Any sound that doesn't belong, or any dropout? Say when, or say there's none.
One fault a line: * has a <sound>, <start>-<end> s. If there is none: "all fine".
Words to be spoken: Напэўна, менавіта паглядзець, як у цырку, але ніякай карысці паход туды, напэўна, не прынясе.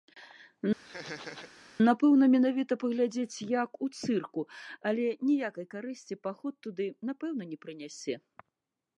* has a laugh, 0.8-1.5 s